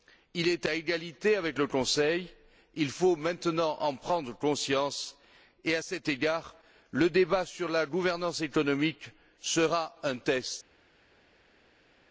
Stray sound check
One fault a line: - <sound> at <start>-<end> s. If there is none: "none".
none